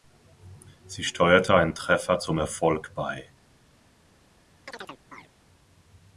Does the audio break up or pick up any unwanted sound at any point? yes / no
yes